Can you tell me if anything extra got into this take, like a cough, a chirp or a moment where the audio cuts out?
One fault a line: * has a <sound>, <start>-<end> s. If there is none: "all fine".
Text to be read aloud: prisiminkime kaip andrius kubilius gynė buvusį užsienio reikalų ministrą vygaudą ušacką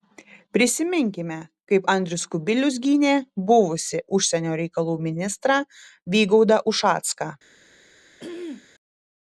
* has a throat clearing, 8.2-8.7 s